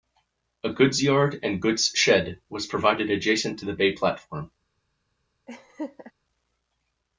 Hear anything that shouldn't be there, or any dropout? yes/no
yes